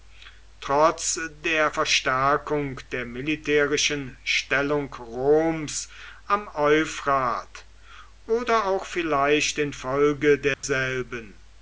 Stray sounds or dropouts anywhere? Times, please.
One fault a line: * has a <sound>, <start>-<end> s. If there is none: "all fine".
* has a dropout, 10.5-10.6 s